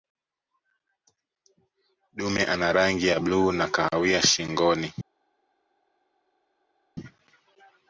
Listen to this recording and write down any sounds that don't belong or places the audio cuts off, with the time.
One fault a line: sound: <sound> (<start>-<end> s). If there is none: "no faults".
no faults